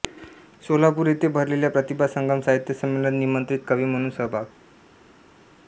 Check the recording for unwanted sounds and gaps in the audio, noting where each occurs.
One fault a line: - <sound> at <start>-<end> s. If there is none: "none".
none